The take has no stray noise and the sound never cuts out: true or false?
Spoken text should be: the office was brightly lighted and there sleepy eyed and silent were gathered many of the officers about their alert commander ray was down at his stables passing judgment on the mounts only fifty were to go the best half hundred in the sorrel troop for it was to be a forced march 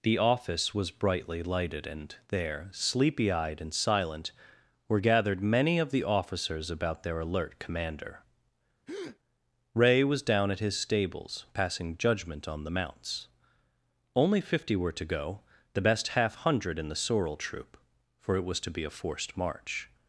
false